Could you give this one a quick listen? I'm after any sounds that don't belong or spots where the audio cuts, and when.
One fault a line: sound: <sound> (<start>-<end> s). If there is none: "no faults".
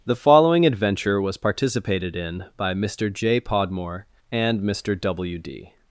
no faults